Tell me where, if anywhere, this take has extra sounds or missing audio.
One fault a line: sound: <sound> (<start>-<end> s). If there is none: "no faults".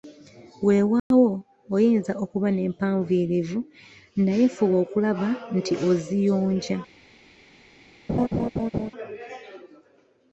sound: dropout (1.0-1.1 s)
sound: laugh (8.1-8.9 s)